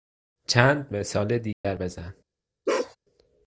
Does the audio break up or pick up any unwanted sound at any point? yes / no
yes